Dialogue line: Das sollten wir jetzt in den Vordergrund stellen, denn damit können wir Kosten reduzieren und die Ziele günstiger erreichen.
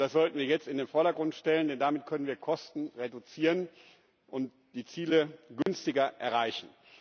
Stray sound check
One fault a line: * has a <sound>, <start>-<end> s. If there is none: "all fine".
* has a dropout, 5.6-5.7 s